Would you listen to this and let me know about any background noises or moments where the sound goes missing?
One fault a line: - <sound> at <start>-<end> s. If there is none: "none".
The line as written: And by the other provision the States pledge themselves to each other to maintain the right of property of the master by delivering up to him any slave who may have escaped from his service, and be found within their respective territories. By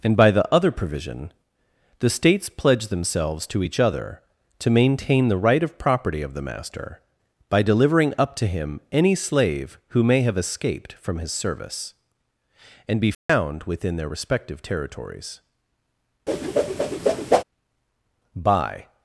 - dropout at 13.1-13.3 s
- whoosh at 16.3-17.4 s